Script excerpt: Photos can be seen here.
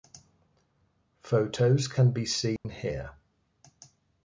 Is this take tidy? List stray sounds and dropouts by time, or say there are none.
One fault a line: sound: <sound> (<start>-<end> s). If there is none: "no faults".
sound: dropout (2.6-2.6 s)